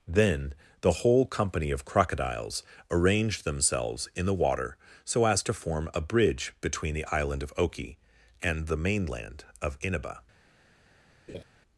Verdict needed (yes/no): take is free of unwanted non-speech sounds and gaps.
no